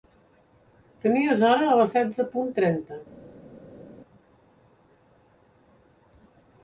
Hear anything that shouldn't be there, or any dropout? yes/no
no